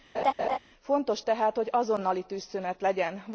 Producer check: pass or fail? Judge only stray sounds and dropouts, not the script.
fail